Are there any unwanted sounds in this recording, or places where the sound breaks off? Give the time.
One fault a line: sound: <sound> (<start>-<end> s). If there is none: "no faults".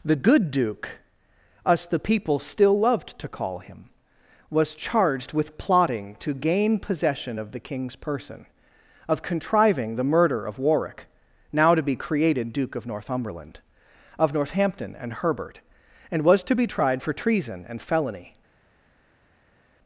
no faults